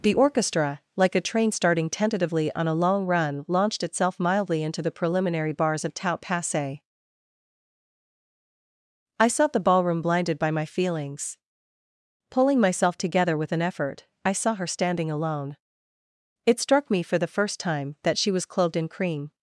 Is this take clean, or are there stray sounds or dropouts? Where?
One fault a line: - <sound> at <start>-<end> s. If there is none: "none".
none